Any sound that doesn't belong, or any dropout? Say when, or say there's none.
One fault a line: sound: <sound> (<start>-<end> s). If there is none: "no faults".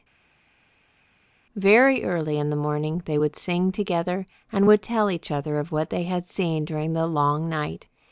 no faults